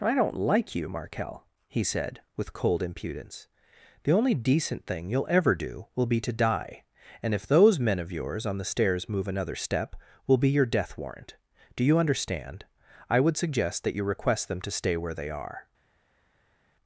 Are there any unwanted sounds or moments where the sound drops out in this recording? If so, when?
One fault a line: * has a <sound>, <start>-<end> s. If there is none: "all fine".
all fine